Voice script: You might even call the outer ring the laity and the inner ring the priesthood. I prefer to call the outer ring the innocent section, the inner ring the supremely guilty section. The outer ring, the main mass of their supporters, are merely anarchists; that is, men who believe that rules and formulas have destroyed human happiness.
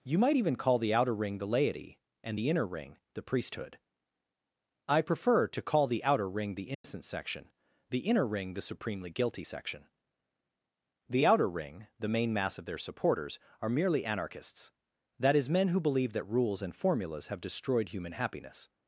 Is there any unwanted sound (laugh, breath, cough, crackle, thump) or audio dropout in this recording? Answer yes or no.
yes